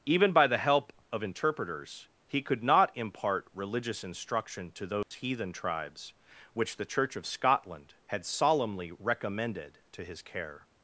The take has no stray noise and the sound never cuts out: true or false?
false